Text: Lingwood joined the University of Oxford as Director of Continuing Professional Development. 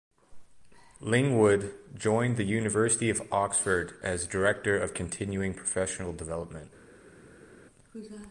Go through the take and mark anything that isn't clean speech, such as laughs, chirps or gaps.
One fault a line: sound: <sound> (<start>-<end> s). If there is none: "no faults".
no faults